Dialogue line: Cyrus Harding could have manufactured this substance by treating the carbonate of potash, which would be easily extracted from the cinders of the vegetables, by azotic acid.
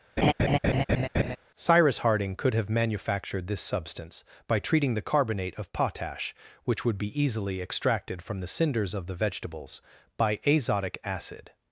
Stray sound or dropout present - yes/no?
yes